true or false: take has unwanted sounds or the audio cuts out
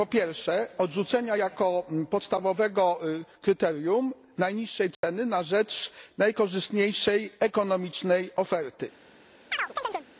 true